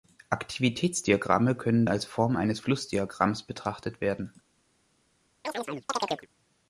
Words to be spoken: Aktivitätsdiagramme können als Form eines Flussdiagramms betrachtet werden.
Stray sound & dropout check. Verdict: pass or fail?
fail